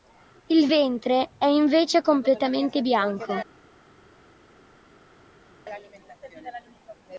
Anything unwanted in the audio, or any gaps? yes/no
no